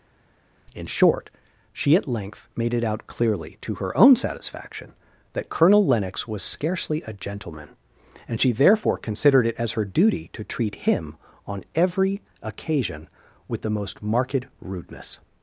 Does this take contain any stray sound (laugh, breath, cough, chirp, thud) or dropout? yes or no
no